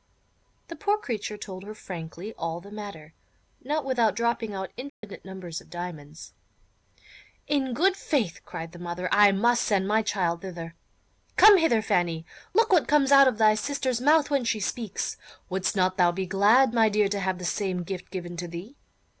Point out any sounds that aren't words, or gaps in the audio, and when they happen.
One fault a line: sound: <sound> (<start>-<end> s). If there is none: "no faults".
sound: dropout (4.9-5.0 s)